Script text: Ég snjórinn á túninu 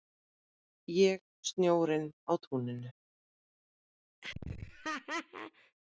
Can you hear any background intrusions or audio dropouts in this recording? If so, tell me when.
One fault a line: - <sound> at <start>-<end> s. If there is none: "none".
- laugh at 4.2-5.8 s